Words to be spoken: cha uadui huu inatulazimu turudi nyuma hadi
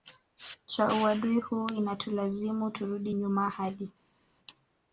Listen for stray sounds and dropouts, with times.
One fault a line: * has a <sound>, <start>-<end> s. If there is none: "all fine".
all fine